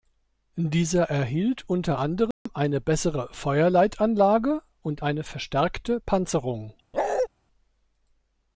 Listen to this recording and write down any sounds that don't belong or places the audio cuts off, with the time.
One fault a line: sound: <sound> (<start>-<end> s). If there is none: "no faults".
sound: dropout (2.3-2.5 s)
sound: bark (6.9-7.3 s)